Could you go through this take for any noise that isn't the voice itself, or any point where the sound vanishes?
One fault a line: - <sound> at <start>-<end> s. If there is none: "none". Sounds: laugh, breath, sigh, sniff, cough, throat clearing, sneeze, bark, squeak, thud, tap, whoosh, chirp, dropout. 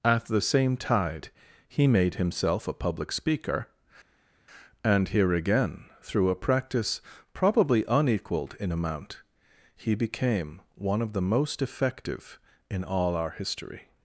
none